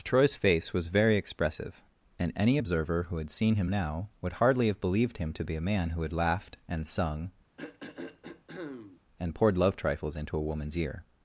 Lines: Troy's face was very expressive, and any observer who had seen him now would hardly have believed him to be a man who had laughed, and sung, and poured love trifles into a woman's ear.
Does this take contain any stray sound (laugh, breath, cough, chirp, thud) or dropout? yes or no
yes